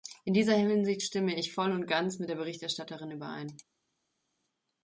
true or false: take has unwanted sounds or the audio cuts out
false